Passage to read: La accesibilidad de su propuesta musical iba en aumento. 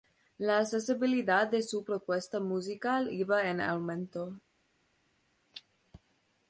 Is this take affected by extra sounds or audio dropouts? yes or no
no